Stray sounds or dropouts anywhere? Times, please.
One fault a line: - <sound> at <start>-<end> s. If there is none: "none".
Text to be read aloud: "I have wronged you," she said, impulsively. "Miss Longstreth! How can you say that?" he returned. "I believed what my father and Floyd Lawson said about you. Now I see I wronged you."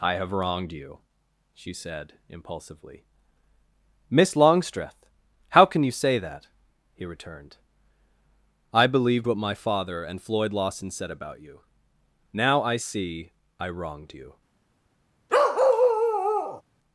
- bark at 15.3-16.6 s